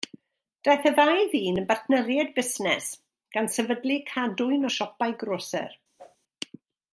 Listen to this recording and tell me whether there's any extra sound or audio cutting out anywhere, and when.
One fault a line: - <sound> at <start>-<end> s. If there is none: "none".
- whoosh at 6.0-6.2 s